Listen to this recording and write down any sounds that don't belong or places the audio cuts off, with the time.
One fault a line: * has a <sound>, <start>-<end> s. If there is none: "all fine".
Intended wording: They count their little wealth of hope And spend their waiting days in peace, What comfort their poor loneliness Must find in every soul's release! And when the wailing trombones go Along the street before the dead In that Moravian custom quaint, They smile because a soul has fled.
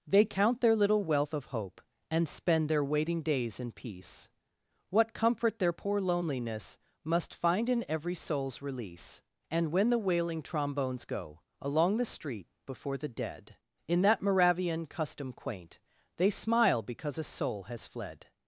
all fine